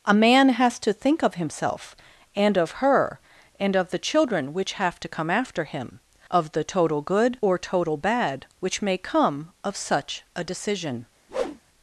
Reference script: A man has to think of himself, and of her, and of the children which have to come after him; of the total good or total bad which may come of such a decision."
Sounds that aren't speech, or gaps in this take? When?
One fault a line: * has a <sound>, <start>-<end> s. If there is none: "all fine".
* has a whoosh, 11.3-11.6 s